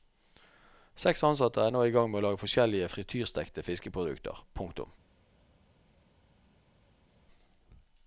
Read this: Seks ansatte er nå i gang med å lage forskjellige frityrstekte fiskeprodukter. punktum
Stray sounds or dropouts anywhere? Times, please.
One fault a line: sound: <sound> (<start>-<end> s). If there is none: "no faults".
no faults